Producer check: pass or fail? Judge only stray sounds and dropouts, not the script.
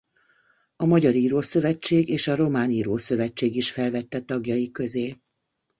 pass